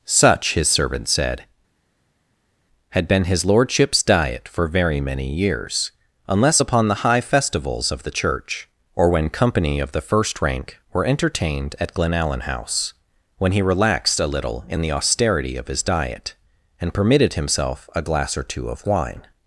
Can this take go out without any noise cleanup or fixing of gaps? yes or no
yes